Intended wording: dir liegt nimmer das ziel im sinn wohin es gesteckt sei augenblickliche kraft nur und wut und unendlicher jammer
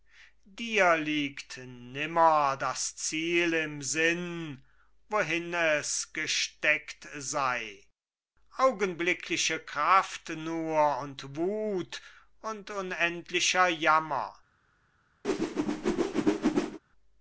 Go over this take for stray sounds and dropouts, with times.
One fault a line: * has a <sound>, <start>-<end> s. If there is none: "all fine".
* has a whoosh, 15.2-16.8 s